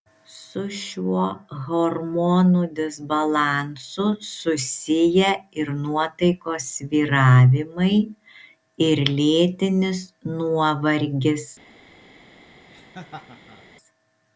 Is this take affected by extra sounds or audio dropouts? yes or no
yes